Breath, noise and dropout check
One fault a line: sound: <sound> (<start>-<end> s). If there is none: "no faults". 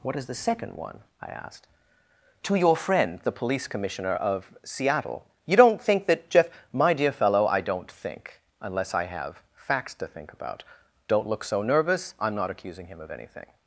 no faults